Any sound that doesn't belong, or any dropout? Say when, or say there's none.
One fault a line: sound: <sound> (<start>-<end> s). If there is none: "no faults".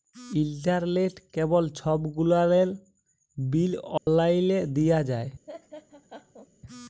sound: dropout (4.0-4.1 s)
sound: laugh (5.5-6.5 s)